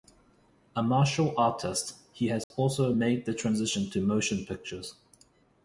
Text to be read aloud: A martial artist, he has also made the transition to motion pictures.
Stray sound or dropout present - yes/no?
yes